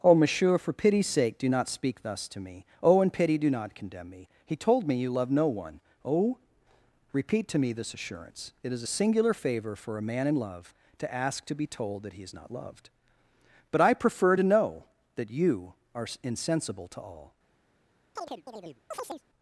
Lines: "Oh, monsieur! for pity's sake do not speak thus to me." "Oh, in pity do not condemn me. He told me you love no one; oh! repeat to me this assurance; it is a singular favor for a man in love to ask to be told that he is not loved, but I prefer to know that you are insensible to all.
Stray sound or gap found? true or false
true